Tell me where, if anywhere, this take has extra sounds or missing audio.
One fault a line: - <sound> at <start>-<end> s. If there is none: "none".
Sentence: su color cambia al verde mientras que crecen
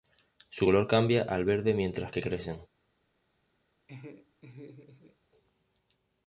- laugh at 3.9-5.2 s